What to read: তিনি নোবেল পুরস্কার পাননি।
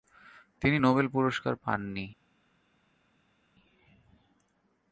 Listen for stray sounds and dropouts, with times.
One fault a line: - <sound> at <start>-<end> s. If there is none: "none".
none